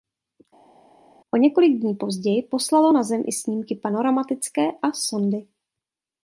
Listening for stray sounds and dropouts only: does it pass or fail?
pass